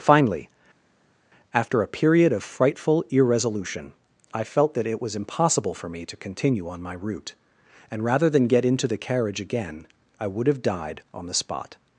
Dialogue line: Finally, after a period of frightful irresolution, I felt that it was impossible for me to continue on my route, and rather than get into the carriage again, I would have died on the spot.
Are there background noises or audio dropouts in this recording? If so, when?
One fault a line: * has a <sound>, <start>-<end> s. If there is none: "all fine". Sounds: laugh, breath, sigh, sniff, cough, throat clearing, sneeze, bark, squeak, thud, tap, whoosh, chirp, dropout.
all fine